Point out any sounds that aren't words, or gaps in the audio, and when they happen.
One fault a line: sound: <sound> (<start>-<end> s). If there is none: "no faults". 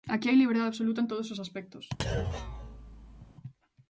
sound: thud (2.0-3.3 s)